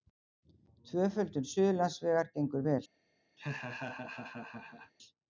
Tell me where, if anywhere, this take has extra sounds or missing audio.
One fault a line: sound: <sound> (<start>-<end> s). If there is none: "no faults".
sound: laugh (3.4-4.9 s)